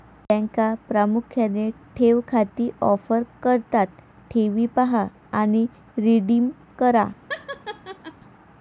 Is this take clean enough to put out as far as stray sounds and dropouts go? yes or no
no